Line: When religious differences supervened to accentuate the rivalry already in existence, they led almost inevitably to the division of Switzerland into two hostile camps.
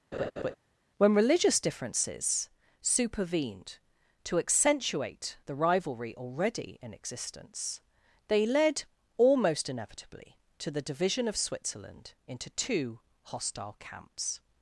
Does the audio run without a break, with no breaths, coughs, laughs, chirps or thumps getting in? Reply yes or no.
no